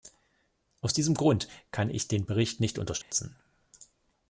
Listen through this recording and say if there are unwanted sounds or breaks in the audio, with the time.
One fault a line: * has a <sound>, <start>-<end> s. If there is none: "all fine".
* has a dropout, 3.0-3.1 s